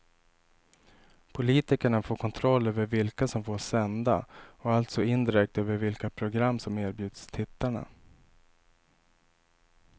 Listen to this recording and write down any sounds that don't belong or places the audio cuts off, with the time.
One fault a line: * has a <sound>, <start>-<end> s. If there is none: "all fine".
all fine